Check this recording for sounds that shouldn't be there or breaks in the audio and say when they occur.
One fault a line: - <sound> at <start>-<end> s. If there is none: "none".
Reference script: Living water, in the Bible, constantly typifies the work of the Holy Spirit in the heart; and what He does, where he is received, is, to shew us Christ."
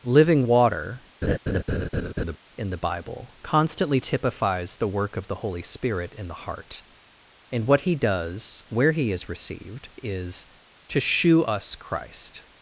- laugh at 1.2-2.4 s